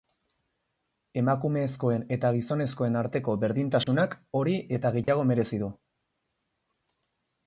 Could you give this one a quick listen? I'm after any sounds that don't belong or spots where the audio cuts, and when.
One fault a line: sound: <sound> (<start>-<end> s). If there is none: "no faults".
sound: dropout (3.8-3.9 s)
sound: dropout (5.0-5.1 s)